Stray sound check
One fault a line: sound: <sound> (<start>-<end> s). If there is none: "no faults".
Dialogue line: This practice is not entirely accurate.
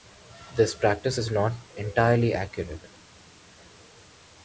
no faults